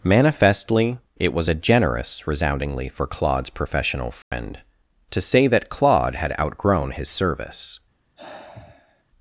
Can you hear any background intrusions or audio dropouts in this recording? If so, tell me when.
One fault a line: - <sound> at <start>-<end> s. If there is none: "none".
- dropout at 4.2-4.3 s
- sigh at 8.2-9.0 s